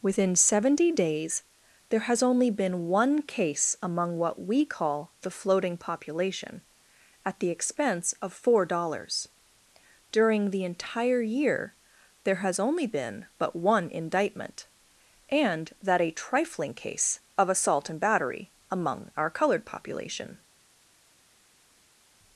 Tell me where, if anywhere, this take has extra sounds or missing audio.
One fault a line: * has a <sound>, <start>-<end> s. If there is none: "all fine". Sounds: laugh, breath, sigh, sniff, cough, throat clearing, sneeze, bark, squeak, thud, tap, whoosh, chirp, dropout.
all fine